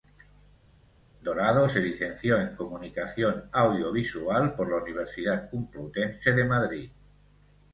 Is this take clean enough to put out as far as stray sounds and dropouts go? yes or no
yes